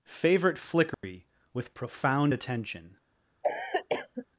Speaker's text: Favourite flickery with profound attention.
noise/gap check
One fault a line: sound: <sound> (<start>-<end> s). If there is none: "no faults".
sound: dropout (0.9-1.0 s)
sound: cough (3.4-4.3 s)